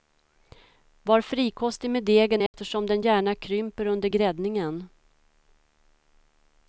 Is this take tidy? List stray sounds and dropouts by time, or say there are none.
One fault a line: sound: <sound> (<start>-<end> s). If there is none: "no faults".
sound: dropout (2.5-2.5 s)